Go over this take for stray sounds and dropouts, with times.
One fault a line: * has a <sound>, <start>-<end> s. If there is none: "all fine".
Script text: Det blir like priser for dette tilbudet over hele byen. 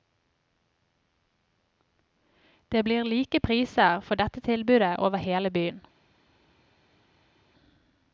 all fine